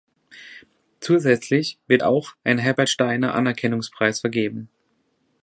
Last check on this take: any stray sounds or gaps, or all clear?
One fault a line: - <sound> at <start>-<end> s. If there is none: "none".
none